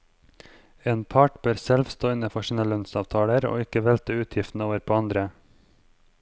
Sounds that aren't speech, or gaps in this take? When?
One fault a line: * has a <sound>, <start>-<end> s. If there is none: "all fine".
all fine